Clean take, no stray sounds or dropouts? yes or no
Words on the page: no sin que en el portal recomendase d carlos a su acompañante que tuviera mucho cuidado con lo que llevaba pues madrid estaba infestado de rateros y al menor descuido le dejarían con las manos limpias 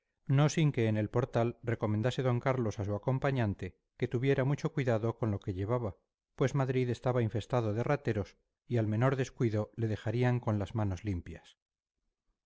yes